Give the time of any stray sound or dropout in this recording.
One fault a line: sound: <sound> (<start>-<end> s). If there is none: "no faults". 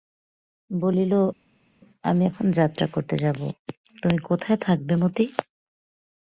no faults